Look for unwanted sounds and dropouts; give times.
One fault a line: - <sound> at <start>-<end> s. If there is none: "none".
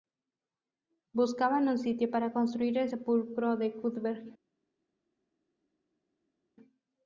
none